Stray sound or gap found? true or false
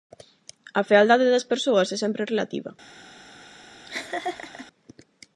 true